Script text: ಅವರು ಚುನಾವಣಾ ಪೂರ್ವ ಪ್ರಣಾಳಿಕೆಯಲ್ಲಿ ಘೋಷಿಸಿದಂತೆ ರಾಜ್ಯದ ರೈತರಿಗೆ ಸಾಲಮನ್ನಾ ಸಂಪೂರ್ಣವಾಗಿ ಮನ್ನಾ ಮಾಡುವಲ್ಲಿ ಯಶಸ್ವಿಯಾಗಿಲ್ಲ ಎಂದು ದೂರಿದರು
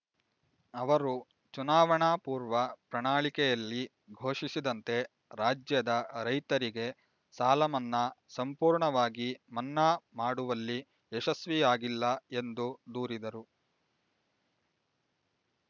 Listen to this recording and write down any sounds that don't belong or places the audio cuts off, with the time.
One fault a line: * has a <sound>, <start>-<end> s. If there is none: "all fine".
all fine